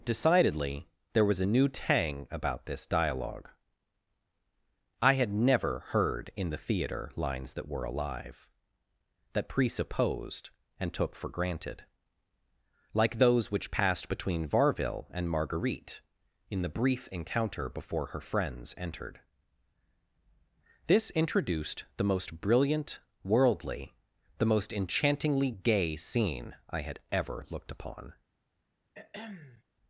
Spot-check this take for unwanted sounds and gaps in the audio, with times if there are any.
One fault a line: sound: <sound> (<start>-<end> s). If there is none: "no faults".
sound: throat clearing (28.9-29.6 s)